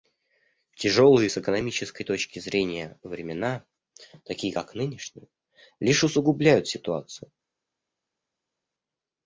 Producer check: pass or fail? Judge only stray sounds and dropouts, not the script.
pass